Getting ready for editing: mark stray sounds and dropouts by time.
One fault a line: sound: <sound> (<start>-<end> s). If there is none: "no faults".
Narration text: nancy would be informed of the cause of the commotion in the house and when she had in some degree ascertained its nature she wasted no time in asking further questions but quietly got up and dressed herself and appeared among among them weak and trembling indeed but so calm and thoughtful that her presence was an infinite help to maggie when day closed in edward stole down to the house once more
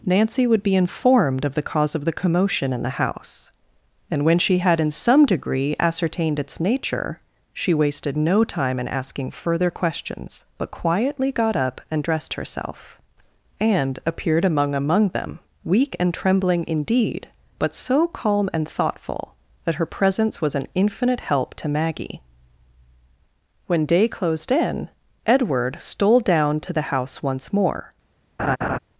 sound: laugh (28.4-28.8 s)